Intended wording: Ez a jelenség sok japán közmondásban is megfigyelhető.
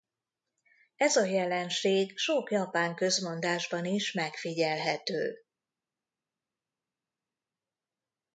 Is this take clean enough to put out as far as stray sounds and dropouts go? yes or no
yes